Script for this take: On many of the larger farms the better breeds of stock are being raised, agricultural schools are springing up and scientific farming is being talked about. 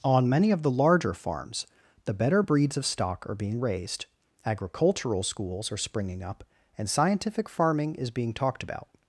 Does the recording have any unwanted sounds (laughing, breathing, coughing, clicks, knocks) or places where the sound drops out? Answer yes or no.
no